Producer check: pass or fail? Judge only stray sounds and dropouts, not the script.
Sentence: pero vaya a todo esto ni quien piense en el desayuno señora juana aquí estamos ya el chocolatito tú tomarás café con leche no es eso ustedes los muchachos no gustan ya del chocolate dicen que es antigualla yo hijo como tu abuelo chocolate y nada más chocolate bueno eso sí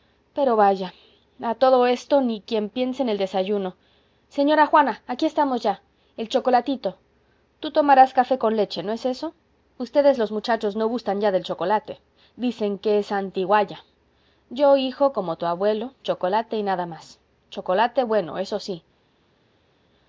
pass